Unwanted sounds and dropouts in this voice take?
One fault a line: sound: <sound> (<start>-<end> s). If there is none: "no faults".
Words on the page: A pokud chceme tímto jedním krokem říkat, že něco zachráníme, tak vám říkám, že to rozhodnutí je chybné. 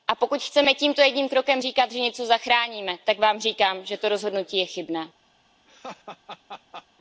sound: laugh (5.7-6.9 s)